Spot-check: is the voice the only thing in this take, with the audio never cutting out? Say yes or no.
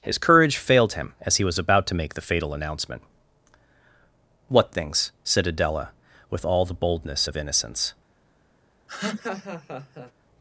no